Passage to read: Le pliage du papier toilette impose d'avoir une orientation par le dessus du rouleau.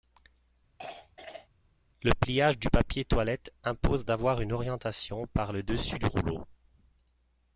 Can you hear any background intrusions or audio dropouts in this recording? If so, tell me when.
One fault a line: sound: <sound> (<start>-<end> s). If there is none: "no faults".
sound: throat clearing (0.8-1.5 s)